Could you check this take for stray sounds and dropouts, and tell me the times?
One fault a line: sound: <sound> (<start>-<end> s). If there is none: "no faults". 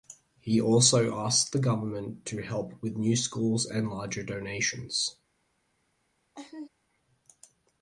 sound: laugh (6.3-6.7 s)